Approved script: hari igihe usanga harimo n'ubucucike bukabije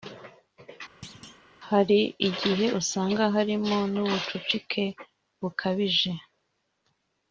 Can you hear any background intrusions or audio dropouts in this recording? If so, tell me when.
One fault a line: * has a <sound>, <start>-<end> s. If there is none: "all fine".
* has a thud, 1.0-1.4 s